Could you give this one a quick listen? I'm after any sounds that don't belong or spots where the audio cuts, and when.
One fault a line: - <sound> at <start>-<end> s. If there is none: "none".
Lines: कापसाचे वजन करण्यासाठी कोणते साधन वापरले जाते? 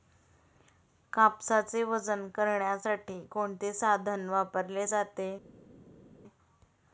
none